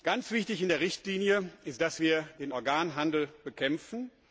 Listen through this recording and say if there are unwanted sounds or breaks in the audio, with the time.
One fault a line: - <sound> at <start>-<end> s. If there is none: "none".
none